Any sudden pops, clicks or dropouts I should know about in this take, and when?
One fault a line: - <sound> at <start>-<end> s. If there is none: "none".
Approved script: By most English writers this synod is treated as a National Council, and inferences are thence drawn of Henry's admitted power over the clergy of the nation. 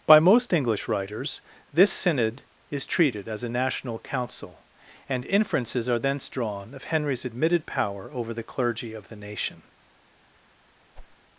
- whoosh at 10.9-11.2 s